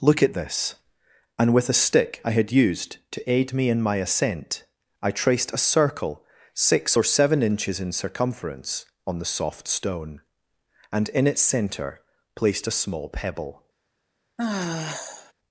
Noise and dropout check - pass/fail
fail